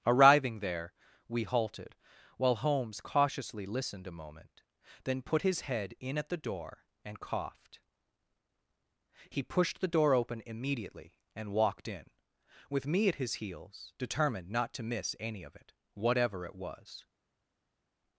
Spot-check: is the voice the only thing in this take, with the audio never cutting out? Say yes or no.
yes